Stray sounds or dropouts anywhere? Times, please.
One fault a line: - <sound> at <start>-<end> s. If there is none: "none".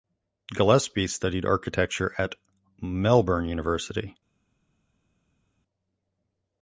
none